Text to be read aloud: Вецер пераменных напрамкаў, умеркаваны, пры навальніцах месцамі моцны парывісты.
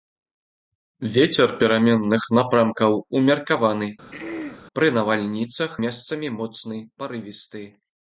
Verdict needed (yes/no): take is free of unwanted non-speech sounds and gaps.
no